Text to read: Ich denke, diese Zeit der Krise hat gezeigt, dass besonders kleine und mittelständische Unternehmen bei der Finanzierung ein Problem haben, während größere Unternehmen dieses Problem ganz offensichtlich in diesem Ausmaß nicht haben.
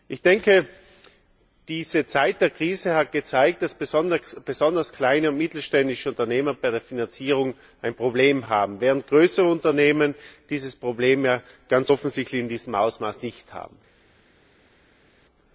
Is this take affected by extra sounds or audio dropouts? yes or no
no